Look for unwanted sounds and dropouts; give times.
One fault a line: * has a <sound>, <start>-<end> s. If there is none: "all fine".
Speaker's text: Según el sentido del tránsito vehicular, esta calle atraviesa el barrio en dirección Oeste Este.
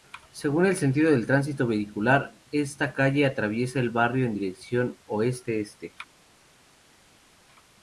all fine